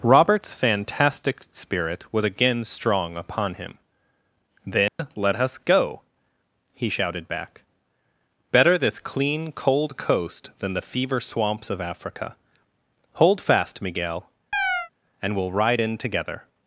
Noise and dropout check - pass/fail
fail